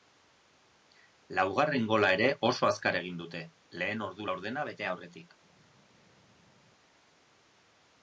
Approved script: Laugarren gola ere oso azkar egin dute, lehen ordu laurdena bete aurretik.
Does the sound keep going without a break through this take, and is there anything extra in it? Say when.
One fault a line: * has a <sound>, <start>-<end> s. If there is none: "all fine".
all fine